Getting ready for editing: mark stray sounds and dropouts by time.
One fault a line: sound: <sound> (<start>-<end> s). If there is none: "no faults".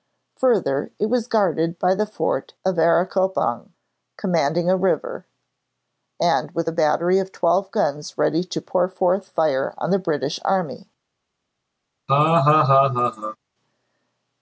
sound: laugh (12.1-13.4 s)